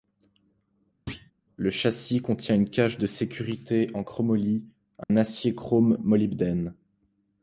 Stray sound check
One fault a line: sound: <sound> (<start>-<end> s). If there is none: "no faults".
sound: thud (1.1-1.3 s)
sound: dropout (5.0-5.1 s)